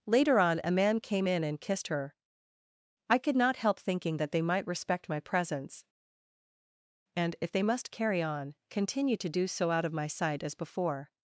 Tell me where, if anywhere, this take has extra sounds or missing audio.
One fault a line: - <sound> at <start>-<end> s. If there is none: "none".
none